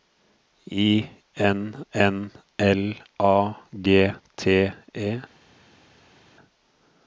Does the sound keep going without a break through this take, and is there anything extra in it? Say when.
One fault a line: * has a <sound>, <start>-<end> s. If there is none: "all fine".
all fine